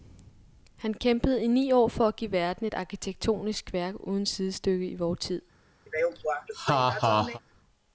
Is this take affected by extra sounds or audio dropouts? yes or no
yes